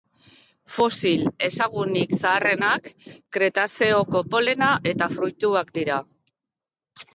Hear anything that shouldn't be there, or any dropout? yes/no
no